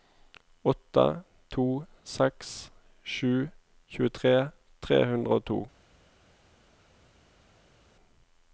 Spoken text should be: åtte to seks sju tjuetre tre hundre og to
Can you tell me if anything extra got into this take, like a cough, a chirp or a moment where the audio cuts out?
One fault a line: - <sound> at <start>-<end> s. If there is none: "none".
none